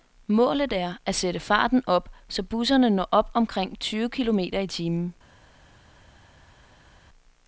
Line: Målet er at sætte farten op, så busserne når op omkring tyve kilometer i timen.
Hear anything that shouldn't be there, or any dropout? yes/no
no